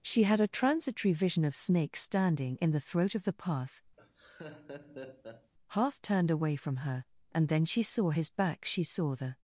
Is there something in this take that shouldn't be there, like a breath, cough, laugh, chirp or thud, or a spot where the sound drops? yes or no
yes